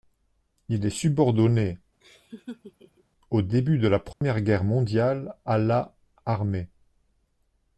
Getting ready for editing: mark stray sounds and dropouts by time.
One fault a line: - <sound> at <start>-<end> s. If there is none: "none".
- laugh at 2.0-3.0 s
- dropout at 4.1-4.2 s